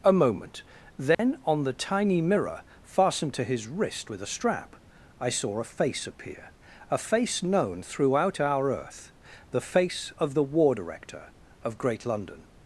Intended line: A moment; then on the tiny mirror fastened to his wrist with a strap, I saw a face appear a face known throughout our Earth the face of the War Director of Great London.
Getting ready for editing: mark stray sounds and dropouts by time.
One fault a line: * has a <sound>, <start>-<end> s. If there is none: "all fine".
* has a dropout, 1.1-1.2 s